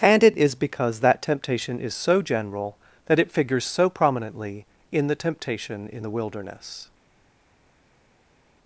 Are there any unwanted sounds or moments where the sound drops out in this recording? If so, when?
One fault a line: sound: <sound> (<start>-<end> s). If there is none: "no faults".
no faults